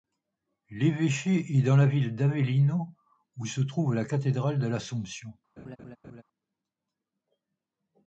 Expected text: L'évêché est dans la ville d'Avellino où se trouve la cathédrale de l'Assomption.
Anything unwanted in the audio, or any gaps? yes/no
yes